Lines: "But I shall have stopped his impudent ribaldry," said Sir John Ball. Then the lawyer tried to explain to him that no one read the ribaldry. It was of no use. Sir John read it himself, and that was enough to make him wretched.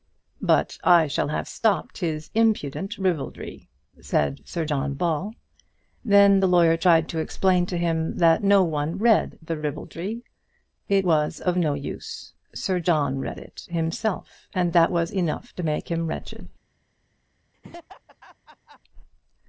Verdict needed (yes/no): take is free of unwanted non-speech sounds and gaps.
no